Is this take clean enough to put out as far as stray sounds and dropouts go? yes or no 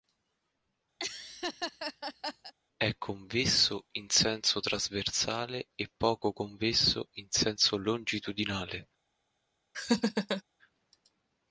no